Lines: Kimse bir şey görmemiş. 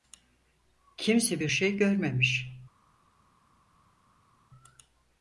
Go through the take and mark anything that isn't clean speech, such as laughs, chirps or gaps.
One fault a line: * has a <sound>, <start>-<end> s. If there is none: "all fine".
all fine